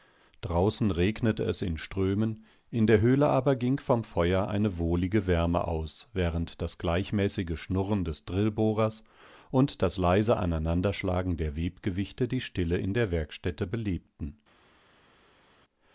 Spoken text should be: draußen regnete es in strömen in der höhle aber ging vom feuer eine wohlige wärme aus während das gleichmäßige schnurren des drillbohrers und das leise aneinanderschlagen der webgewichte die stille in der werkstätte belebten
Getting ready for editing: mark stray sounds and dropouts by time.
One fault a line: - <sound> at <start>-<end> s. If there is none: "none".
none